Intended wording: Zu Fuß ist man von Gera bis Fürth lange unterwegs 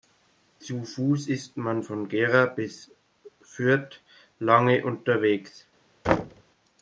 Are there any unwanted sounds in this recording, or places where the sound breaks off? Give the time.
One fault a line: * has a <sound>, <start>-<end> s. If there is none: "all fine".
* has a thud, 6.0-6.4 s